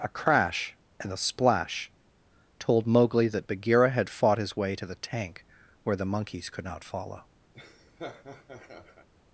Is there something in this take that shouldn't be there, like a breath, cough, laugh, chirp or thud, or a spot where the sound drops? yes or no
yes